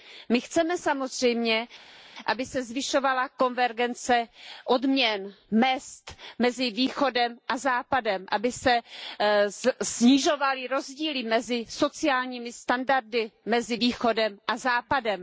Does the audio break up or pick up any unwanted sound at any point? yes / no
no